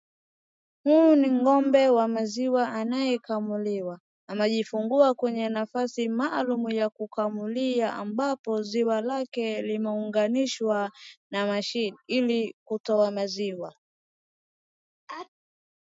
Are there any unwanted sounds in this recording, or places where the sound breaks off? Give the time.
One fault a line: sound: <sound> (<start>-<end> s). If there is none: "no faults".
sound: sneeze (15.1-15.3 s)